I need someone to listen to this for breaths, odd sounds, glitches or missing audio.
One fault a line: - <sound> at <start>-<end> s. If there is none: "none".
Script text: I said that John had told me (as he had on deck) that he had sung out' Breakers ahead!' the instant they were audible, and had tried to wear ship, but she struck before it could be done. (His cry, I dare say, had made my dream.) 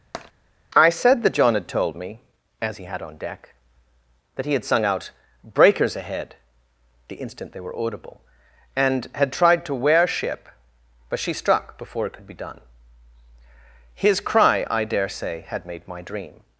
- tap at 0.1-0.3 s